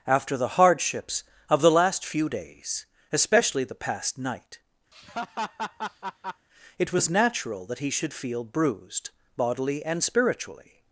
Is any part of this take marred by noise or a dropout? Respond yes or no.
yes